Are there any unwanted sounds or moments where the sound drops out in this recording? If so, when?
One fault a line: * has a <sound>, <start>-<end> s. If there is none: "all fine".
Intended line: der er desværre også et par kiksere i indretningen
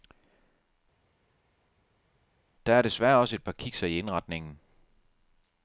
all fine